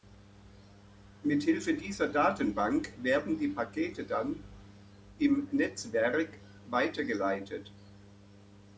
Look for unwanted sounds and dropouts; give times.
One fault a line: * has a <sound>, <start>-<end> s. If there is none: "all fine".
all fine